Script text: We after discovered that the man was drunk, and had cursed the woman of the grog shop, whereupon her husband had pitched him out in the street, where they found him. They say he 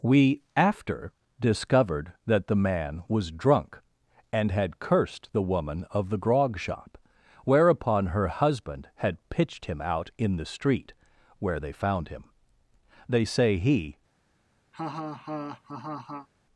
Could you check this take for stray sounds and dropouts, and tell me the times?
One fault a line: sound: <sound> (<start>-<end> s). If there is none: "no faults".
sound: laugh (14.7-16.3 s)